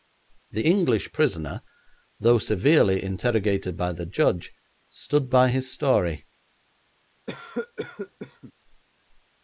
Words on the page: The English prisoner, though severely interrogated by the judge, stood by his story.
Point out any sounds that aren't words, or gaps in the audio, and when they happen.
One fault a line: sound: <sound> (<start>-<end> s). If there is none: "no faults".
sound: cough (7.3-8.5 s)